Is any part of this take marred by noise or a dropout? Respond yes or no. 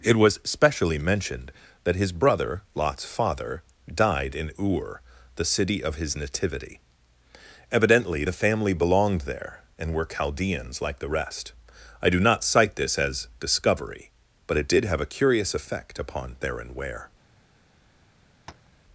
yes